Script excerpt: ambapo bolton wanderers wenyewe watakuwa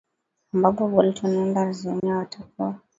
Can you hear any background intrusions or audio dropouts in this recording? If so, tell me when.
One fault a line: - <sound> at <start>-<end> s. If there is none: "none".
- dropout at 2.0-2.0 s